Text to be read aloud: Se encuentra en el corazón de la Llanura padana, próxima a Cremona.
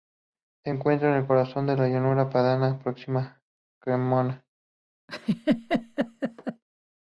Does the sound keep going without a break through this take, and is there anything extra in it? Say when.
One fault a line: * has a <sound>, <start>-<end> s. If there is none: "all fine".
* has a laugh, 5.1-6.6 s